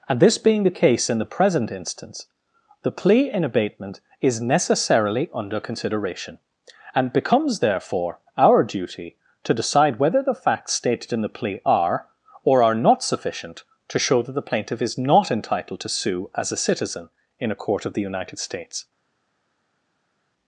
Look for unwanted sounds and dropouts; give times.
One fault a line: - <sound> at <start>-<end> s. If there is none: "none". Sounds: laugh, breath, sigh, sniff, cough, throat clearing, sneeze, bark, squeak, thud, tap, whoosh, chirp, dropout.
none